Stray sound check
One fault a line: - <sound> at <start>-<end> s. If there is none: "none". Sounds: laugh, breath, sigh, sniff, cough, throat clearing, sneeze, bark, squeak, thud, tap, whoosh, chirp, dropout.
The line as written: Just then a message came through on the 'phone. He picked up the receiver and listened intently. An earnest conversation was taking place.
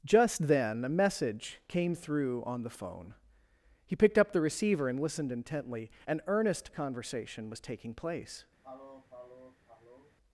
- sniff at 8.6-10.1 s